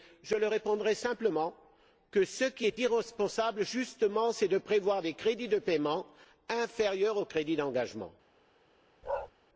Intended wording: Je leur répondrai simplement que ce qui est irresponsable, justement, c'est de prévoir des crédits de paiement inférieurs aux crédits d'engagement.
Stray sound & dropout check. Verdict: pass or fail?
fail